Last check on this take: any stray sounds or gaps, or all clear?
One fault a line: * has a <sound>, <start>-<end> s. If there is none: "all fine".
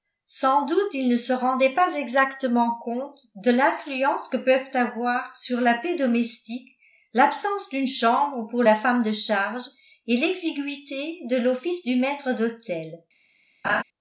* has a laugh, 13.6-13.8 s